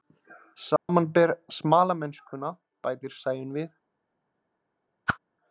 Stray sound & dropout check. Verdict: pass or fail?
fail